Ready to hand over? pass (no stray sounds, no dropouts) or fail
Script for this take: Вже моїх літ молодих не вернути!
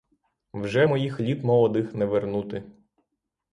pass